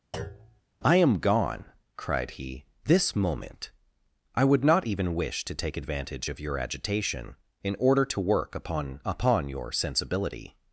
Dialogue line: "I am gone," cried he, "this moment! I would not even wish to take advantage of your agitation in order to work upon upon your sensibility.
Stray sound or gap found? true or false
true